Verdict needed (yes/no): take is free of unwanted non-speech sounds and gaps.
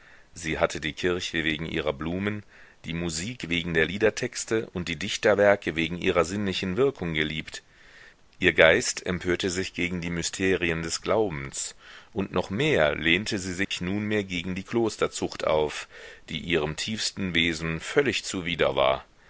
no